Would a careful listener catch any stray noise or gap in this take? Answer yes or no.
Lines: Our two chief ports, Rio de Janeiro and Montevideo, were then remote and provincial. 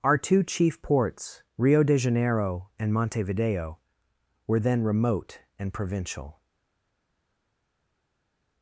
no